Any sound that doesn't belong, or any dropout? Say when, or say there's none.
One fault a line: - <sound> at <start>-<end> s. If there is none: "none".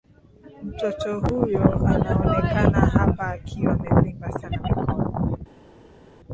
none